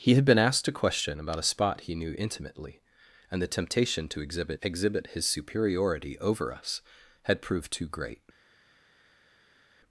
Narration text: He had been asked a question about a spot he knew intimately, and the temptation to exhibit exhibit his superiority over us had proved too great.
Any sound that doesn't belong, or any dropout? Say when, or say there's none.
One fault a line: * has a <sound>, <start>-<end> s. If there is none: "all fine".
all fine